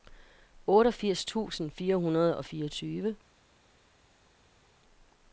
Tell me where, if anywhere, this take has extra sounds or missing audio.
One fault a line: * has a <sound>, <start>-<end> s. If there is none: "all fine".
all fine